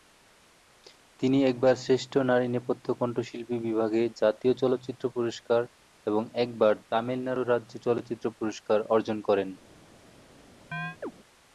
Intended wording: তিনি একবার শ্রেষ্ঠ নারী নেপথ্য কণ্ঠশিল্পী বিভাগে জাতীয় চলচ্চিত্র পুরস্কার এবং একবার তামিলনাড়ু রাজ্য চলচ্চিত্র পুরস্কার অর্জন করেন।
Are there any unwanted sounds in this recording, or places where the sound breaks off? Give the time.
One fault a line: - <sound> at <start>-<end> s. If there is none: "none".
- chirp at 10.7-11.1 s